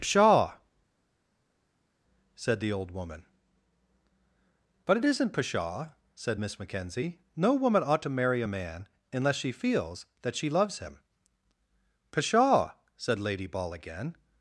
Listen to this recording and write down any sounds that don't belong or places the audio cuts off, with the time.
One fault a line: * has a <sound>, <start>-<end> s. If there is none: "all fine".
all fine